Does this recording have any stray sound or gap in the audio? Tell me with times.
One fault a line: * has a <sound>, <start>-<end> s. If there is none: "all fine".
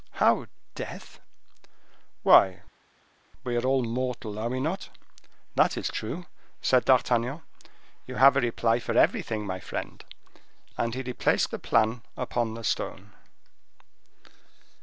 all fine